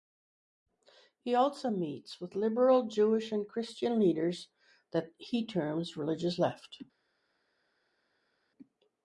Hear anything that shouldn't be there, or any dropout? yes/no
no